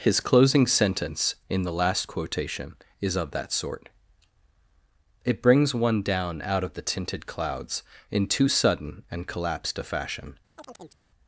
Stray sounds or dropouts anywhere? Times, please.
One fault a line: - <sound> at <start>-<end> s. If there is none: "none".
- chirp at 10.6-11.0 s